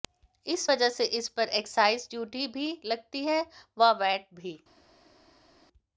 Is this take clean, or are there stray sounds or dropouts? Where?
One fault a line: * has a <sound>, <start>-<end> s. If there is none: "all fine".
all fine